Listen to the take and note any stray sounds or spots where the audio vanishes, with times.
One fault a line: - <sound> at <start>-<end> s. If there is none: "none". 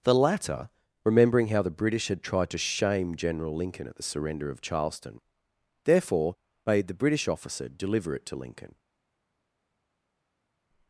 none